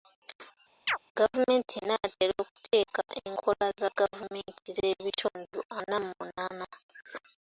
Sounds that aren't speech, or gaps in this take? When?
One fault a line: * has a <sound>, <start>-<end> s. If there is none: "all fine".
* has a chirp, 0.9-1.0 s